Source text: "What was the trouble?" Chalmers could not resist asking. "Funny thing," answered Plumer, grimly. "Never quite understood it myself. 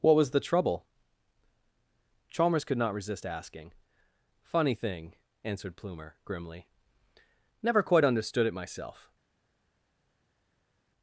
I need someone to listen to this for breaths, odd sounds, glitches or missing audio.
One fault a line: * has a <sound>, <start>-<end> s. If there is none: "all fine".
all fine